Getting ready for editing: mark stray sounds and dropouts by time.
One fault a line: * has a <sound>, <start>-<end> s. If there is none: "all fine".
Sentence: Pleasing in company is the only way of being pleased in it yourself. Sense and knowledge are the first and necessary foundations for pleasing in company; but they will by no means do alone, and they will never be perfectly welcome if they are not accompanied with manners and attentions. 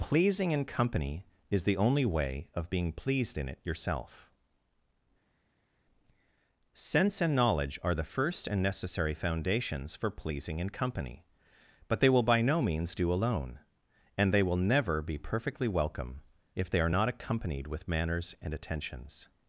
all fine